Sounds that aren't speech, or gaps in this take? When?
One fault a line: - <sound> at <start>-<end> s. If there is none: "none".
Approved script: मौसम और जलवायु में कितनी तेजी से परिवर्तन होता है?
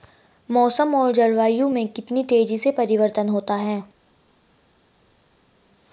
none